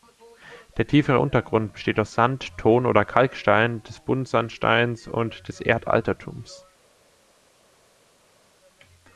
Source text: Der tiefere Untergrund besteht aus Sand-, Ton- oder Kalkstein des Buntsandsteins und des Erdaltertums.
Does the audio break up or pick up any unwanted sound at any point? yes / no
no